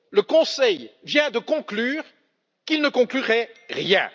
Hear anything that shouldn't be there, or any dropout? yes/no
no